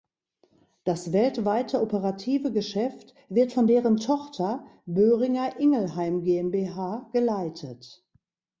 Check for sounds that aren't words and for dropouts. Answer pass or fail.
pass